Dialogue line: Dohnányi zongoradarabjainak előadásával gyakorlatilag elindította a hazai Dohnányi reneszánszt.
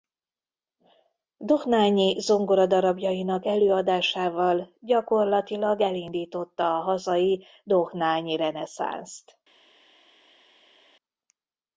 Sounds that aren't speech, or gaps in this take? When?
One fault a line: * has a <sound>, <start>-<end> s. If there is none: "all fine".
all fine